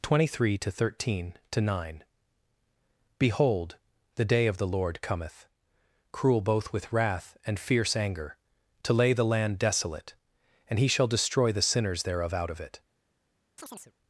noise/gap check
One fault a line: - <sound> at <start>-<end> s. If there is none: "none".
- chirp at 13.6-13.9 s